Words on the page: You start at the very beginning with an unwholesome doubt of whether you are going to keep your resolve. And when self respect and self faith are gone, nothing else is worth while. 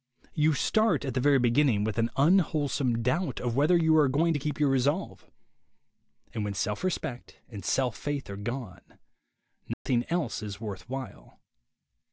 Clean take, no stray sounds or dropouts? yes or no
no